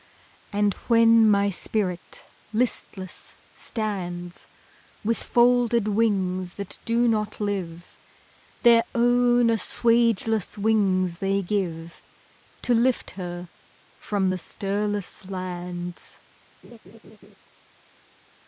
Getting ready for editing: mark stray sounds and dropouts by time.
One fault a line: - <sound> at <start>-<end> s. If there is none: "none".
- laugh at 16.6-17.3 s